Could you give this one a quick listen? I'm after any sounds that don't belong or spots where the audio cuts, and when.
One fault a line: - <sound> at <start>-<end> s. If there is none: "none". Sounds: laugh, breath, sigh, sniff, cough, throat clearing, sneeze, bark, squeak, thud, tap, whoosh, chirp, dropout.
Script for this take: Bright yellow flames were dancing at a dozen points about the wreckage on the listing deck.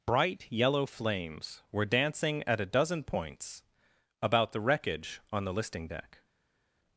none